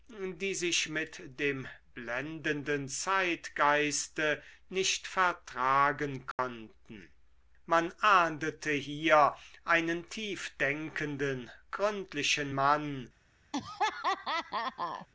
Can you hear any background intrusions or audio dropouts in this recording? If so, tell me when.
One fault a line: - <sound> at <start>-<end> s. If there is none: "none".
- dropout at 6.3-6.4 s
- laugh at 13.5-15.1 s